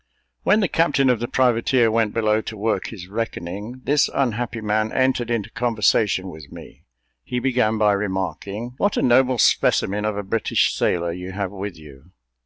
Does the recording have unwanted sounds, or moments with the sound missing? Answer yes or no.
no